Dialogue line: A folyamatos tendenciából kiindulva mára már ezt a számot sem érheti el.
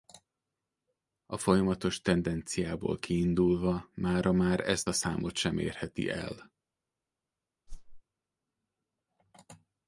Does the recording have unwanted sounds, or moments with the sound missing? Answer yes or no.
yes